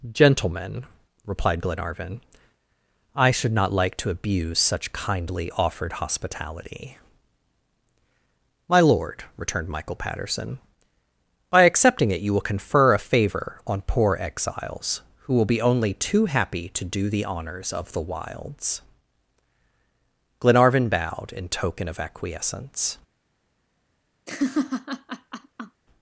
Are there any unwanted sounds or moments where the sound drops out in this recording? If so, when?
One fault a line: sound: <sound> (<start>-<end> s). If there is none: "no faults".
sound: laugh (24.3-25.8 s)